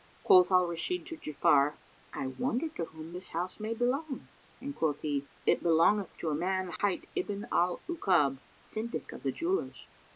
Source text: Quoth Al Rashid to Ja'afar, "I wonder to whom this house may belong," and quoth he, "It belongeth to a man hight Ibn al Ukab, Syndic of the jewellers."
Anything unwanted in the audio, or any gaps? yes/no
yes